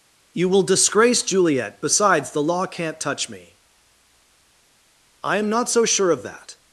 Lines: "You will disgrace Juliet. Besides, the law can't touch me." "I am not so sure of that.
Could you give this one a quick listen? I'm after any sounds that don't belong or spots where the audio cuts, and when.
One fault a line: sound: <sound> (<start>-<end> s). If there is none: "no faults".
no faults